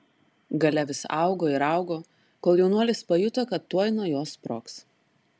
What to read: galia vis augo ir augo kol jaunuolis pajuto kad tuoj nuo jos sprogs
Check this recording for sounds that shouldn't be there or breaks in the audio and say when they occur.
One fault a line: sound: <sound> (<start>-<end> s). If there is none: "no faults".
no faults